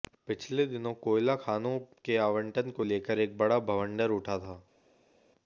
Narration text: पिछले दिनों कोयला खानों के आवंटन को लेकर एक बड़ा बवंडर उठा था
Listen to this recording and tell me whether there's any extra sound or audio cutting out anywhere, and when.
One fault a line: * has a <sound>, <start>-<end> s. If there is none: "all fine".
all fine